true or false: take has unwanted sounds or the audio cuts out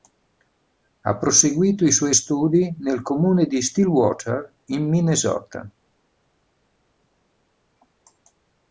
false